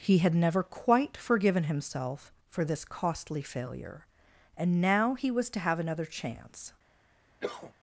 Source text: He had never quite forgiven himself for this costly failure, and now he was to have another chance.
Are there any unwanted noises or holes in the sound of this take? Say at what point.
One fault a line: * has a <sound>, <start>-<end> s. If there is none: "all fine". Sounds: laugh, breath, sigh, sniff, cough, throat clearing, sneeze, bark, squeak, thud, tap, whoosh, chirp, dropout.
* has a cough, 7.4-7.7 s